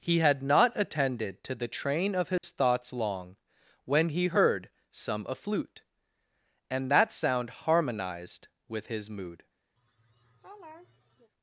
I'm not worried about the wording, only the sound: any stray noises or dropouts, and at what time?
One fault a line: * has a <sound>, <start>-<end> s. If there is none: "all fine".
* has a dropout, 2.4-2.4 s
* has a laugh, 9.8-11.3 s